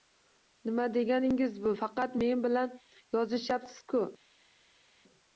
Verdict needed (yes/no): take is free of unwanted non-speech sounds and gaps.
yes